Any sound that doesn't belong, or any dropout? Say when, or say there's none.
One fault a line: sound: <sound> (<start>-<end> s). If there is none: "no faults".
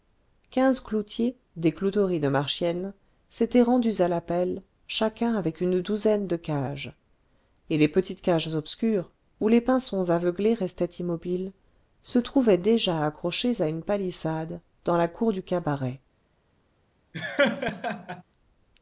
sound: laugh (17.1-18.2 s)